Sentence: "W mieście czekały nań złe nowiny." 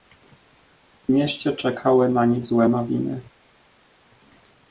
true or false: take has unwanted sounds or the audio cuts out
false